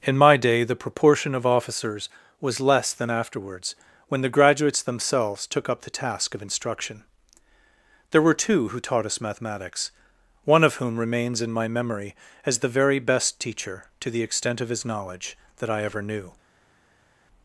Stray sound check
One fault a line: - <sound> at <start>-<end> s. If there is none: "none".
none